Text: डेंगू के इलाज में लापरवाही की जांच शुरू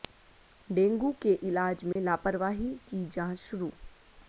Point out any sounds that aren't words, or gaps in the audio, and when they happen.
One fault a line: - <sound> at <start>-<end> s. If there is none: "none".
- dropout at 1.9-2.0 s